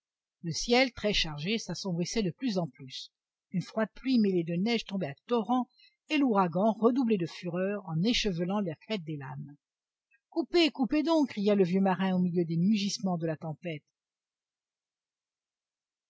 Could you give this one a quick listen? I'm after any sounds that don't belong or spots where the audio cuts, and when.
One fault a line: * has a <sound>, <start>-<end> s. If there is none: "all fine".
all fine